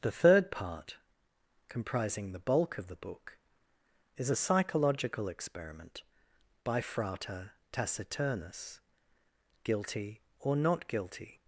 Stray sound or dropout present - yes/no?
no